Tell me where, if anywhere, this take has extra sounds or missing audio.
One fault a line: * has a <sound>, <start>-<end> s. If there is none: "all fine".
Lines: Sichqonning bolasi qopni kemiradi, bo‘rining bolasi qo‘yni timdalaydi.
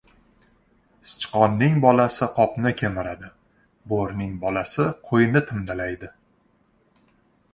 all fine